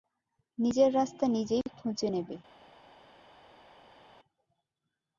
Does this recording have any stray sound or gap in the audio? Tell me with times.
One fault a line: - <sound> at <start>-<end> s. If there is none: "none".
none